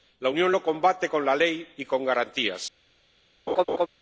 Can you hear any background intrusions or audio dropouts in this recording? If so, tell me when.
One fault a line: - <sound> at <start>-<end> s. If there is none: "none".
- laugh at 3.5-3.9 s